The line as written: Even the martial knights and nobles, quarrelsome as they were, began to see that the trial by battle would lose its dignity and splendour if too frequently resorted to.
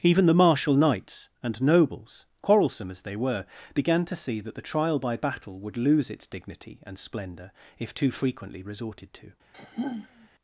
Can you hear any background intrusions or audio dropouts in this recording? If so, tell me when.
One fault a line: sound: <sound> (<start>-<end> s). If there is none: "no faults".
sound: sigh (9.5-10.3 s)